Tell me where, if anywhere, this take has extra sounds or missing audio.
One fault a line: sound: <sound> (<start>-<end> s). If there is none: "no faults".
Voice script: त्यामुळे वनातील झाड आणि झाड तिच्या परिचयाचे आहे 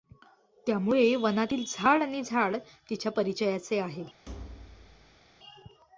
sound: thud (4.3-5.2 s)